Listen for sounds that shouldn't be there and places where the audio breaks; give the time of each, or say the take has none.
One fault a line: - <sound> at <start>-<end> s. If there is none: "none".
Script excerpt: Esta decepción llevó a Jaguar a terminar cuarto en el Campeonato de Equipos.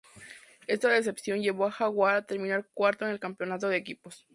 none